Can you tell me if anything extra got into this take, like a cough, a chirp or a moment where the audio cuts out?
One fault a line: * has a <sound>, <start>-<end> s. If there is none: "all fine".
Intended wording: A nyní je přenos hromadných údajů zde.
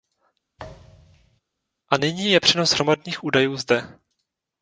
* has a thud, 0.6-1.4 s